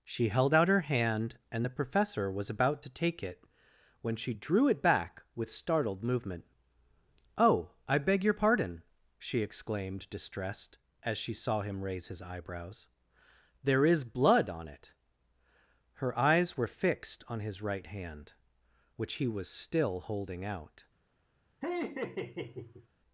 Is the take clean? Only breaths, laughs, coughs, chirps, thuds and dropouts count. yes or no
no